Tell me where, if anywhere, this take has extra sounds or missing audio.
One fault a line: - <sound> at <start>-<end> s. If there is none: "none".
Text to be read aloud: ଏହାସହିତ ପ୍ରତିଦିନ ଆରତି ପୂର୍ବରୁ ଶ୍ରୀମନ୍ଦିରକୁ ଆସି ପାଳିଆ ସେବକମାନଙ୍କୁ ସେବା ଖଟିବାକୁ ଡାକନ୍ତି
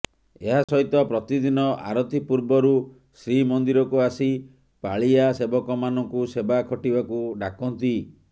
- dropout at 0.6-0.7 s